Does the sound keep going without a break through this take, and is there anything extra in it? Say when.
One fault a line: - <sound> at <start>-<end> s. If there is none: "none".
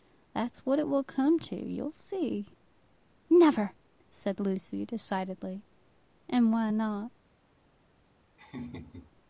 - laugh at 8.4-9.1 s